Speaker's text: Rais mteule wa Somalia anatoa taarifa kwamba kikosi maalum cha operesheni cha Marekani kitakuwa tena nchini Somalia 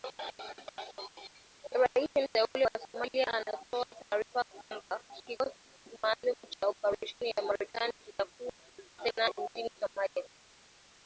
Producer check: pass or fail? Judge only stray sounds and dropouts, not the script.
pass